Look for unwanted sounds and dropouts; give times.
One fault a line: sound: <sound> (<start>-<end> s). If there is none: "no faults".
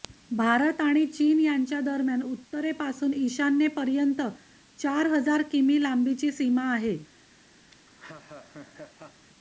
sound: laugh (7.7-9.3 s)